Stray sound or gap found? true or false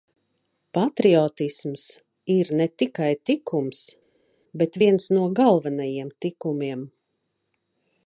false